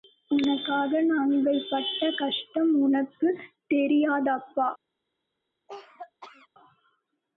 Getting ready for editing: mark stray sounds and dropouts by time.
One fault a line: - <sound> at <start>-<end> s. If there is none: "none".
- cough at 5.7-6.5 s